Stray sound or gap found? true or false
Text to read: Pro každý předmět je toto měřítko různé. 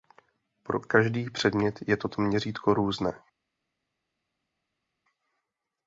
false